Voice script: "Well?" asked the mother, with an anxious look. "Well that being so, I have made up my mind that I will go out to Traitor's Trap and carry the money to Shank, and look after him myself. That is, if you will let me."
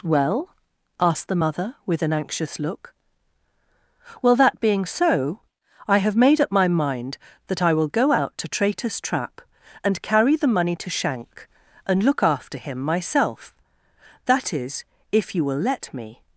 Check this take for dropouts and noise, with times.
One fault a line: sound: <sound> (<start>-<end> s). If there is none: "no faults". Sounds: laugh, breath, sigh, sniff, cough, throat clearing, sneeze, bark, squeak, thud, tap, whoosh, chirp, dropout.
no faults